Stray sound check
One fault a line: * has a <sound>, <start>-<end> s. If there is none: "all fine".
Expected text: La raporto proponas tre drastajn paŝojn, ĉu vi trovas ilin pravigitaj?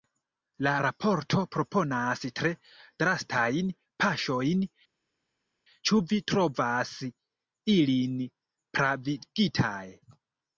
all fine